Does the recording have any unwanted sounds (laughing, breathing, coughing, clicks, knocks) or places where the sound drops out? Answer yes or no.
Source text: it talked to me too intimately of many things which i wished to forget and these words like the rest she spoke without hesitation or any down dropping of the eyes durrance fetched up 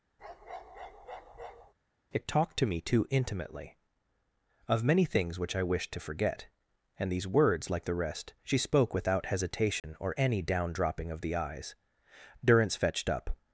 yes